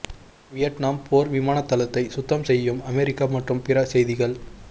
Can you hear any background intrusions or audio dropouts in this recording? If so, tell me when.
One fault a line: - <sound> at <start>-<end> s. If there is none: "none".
none